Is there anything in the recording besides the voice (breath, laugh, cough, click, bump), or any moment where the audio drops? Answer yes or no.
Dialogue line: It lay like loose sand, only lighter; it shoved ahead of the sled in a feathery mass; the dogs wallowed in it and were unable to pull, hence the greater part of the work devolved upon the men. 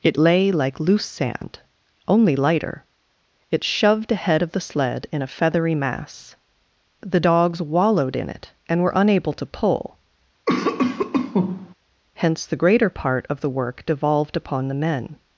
yes